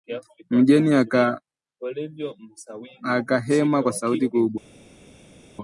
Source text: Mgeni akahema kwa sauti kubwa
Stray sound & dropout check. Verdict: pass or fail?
pass